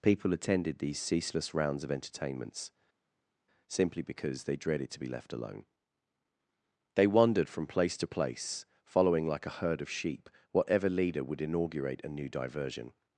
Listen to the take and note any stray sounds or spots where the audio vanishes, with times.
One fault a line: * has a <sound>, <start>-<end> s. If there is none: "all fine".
all fine